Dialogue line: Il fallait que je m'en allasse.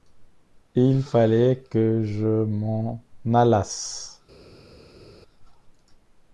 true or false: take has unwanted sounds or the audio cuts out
false